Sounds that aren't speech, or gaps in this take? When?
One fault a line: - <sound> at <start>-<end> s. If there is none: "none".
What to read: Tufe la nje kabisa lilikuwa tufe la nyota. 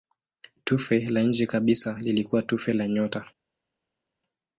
none